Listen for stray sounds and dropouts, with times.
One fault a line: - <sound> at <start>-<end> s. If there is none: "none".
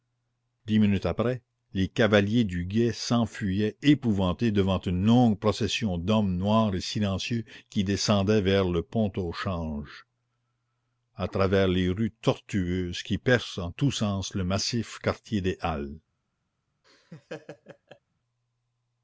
- laugh at 16.8-18.0 s